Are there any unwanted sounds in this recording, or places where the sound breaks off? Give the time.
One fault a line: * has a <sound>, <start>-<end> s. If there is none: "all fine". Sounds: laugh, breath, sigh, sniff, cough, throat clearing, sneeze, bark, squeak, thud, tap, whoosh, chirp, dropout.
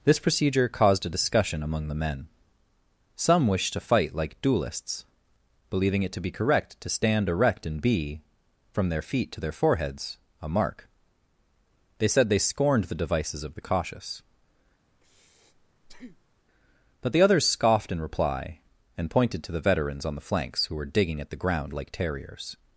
* has a breath, 14.9-16.5 s